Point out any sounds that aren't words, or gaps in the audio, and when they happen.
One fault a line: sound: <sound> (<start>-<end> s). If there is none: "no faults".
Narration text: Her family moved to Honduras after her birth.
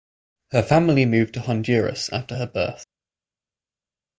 no faults